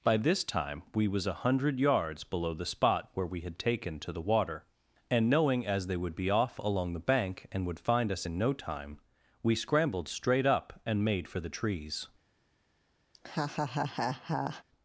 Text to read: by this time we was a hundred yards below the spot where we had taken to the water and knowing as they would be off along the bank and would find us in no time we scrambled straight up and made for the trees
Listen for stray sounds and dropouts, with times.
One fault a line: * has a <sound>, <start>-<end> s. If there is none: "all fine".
* has a laugh, 13.1-14.6 s